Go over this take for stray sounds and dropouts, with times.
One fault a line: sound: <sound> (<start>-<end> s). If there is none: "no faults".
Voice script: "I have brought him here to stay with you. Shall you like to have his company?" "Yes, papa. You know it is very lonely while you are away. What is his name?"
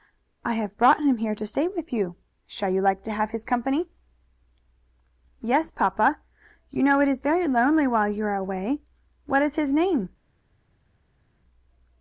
no faults